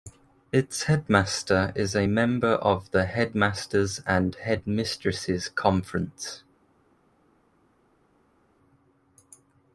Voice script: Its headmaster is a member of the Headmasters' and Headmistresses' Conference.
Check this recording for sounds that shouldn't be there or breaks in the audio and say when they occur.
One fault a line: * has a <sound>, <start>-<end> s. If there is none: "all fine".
all fine